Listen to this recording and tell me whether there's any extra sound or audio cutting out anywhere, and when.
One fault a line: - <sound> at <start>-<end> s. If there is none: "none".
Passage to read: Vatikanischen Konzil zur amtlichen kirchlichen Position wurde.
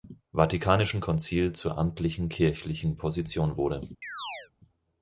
- chirp at 4.0-4.5 s